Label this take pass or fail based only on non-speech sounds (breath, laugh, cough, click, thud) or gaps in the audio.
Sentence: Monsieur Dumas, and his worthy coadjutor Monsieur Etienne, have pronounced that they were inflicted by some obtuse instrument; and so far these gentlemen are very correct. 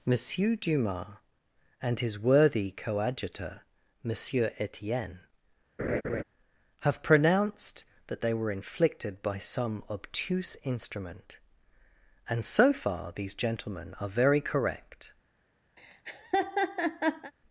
fail